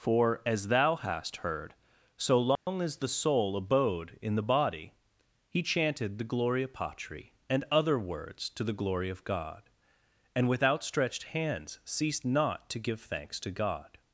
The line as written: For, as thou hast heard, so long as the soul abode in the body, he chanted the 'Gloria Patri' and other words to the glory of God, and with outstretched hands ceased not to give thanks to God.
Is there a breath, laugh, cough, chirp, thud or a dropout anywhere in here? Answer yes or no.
yes